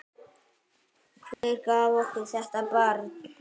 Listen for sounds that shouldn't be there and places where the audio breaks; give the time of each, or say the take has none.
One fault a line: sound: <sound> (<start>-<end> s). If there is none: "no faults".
sound: dropout (1.3-1.4 s)